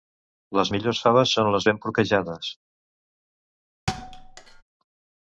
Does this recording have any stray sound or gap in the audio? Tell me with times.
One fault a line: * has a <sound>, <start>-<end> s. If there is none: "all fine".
* has a thud, 3.9-4.6 s